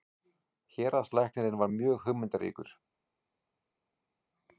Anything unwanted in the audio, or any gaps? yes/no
no